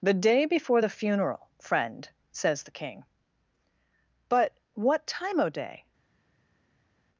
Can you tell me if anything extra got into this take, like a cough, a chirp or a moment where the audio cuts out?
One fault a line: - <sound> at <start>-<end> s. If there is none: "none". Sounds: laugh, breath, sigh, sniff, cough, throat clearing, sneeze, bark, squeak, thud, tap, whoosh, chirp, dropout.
none